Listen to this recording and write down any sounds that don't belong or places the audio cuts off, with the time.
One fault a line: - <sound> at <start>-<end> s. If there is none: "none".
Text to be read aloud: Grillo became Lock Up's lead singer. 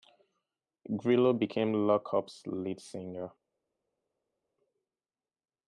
none